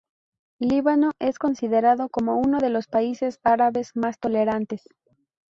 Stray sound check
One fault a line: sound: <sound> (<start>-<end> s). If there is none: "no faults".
no faults